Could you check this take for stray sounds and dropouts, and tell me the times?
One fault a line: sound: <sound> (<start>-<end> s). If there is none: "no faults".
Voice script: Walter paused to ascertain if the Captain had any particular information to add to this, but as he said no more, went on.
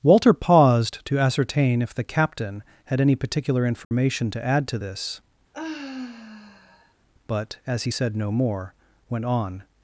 sound: dropout (3.8-3.9 s)
sound: sigh (5.5-6.9 s)